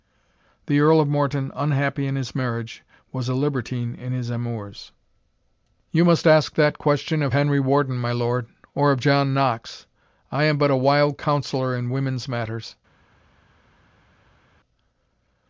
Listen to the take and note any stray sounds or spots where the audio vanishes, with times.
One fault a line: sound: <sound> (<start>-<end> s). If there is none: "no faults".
no faults